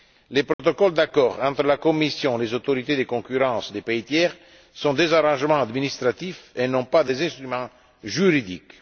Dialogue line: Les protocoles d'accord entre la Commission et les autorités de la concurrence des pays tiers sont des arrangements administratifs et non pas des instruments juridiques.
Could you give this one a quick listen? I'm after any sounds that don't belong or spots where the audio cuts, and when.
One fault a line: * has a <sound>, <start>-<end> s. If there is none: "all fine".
* has a dropout, 0.5-0.6 s